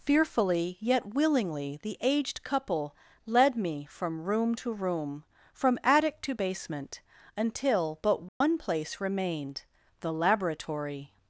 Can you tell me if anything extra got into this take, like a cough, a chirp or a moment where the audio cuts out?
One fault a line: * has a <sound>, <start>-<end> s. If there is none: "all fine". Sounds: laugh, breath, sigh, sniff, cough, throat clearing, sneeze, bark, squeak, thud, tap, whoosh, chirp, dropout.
* has a dropout, 8.3-8.4 s